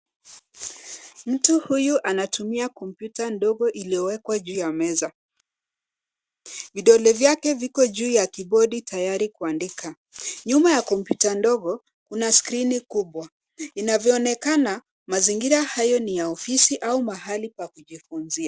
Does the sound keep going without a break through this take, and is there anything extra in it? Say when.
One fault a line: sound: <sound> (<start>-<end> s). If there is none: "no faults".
no faults